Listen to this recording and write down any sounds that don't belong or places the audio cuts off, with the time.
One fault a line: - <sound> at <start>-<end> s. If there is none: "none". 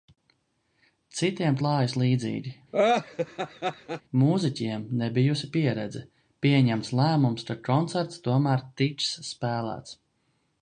- laugh at 2.7-4.0 s